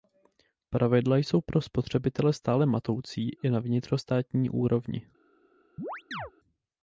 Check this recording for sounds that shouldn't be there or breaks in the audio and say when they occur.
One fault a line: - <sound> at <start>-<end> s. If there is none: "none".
- chirp at 5.8-6.3 s